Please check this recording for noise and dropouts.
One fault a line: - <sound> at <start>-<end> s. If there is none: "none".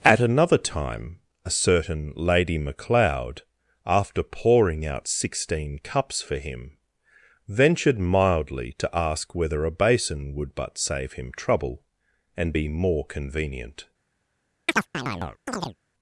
- chirp at 14.7-15.8 s